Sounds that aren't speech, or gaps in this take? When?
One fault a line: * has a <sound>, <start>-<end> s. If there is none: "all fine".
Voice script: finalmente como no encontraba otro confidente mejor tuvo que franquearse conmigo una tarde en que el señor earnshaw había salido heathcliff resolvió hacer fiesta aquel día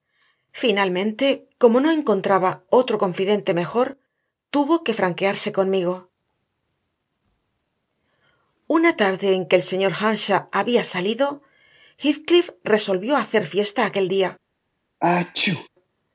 * has a sneeze, 15.0-15.7 s